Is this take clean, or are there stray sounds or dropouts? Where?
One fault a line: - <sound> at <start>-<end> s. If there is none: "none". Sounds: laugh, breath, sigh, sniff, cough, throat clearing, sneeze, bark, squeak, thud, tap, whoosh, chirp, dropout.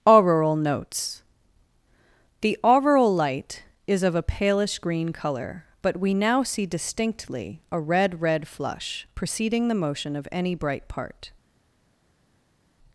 none